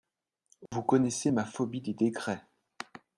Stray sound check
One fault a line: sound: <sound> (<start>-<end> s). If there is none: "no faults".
sound: dropout (0.7-0.7 s)